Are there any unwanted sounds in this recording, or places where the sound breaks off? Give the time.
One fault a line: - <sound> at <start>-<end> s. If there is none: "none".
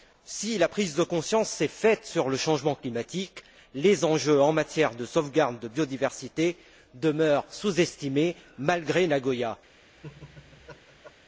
- laugh at 10.0-11.1 s